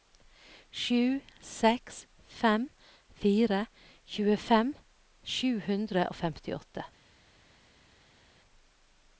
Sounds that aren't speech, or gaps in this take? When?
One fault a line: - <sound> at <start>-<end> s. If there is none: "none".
none